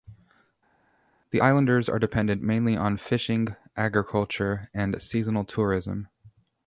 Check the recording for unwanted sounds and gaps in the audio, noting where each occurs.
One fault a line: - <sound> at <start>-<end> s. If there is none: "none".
none